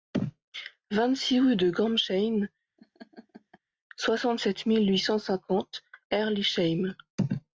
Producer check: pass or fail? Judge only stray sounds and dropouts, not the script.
fail